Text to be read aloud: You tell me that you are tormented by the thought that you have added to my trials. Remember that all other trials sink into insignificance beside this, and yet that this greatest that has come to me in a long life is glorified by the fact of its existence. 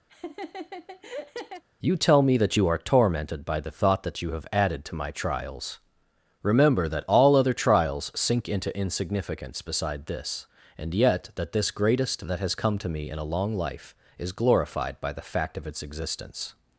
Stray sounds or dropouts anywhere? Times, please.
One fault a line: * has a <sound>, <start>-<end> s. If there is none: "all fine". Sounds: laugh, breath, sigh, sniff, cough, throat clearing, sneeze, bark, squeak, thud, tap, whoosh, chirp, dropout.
* has a laugh, 0.1-1.6 s